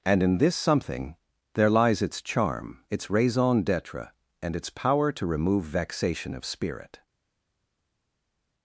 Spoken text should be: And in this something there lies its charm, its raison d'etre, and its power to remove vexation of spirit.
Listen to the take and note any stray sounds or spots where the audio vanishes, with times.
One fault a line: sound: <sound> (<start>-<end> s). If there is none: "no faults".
no faults